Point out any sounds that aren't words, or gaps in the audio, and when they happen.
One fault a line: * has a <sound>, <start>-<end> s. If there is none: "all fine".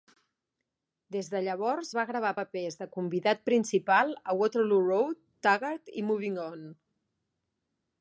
all fine